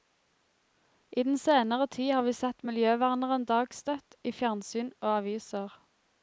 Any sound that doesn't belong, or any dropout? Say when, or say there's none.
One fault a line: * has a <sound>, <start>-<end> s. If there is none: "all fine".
all fine